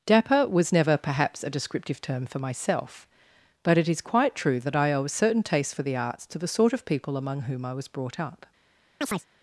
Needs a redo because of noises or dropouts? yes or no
yes